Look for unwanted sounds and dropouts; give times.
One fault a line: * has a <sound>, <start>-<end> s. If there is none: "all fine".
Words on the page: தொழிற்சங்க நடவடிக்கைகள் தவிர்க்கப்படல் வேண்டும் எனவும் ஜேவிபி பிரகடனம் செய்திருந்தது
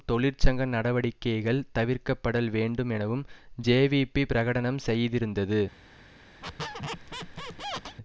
* has a squeak, 6.4-8.0 s